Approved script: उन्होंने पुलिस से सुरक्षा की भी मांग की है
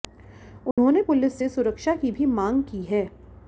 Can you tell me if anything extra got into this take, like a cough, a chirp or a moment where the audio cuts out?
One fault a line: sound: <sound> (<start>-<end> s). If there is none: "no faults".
sound: dropout (0.7-0.8 s)